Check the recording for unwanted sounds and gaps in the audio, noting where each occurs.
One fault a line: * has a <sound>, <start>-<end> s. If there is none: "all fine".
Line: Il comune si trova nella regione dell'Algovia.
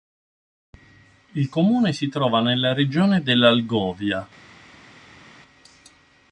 all fine